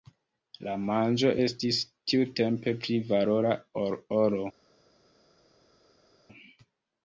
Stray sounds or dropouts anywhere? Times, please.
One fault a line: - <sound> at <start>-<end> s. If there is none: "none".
none